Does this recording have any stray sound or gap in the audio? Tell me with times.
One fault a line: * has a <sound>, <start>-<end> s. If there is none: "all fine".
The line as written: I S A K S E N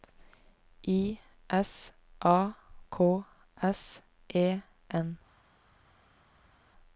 all fine